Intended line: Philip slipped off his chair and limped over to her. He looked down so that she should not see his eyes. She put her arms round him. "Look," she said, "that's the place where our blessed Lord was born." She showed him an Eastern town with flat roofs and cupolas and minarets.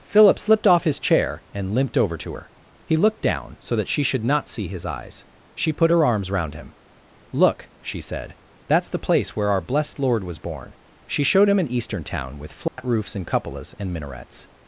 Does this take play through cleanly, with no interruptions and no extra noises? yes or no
no